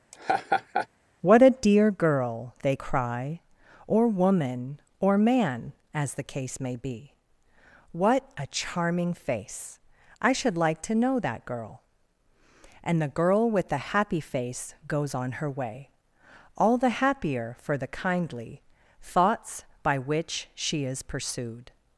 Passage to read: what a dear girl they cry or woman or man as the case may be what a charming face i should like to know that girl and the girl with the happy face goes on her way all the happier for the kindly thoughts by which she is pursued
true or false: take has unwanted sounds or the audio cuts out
true